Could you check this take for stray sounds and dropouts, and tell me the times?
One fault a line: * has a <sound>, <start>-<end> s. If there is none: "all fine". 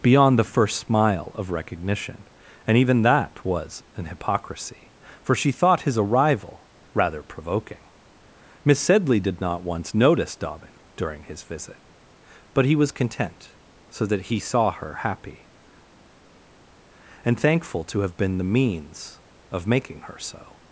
all fine